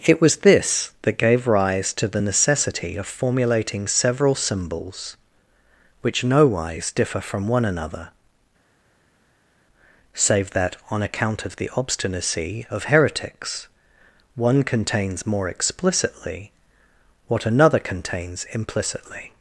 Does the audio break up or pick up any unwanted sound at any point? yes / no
no